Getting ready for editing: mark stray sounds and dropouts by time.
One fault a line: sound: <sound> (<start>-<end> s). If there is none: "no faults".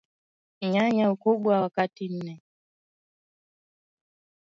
no faults